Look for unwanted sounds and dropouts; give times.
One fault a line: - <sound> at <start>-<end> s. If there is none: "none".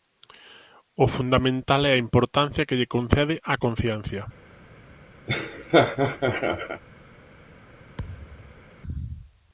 - laugh at 5.3-6.8 s
- thud at 8.0-8.7 s